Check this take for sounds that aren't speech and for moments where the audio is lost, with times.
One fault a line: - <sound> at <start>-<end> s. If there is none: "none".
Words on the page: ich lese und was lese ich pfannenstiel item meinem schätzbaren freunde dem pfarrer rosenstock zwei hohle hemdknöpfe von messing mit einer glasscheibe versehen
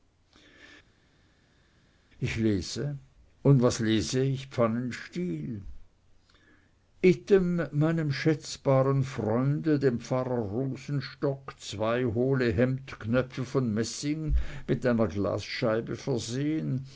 none